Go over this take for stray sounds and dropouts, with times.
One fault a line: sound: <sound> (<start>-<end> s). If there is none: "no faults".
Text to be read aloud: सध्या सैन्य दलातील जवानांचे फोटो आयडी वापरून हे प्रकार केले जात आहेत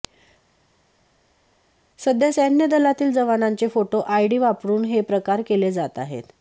no faults